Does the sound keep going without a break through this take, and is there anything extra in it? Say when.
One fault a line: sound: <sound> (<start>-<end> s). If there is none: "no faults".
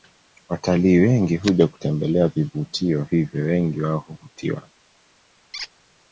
sound: squeak (5.5-5.7 s)